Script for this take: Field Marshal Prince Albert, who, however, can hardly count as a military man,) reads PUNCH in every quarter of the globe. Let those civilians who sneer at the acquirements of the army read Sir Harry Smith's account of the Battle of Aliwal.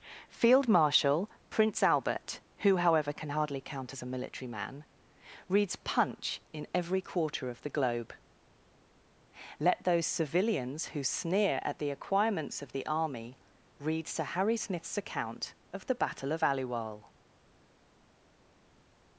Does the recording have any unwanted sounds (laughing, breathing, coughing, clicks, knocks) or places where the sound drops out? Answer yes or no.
no